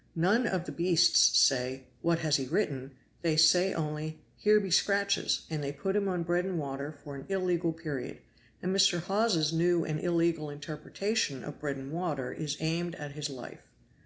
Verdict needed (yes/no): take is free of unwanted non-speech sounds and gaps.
yes